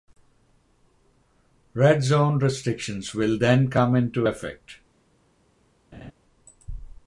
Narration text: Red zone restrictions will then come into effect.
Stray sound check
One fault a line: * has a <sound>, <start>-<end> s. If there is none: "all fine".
* has a laugh, 5.9-6.1 s